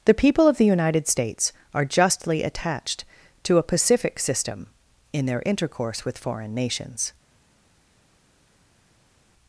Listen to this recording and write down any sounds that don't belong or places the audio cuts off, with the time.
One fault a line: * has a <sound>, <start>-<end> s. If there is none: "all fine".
all fine